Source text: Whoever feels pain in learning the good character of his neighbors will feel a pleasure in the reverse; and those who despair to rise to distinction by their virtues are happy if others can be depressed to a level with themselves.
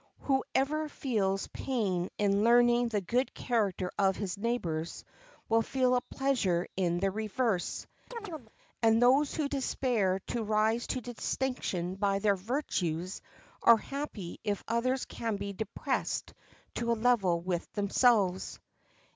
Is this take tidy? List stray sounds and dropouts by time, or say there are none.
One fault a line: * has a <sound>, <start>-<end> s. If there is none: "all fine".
* has a chirp, 8.1-8.5 s